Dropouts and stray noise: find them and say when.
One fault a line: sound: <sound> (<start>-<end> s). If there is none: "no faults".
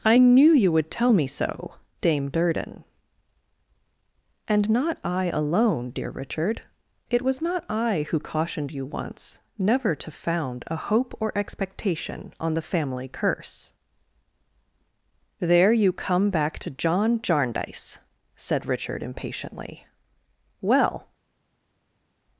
no faults